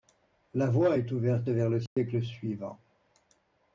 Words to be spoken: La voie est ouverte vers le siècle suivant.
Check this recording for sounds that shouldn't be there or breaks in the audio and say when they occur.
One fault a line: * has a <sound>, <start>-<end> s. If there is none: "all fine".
* has a dropout, 1.9-2.0 s